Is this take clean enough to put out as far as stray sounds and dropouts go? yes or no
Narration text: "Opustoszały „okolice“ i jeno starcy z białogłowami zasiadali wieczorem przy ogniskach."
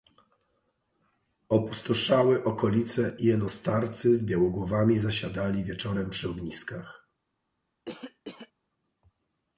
no